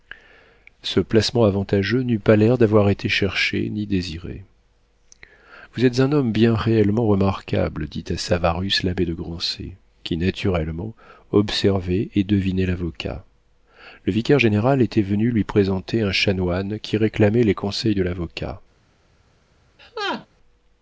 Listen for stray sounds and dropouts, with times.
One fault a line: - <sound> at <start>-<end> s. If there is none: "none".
- laugh at 19.8-20.3 s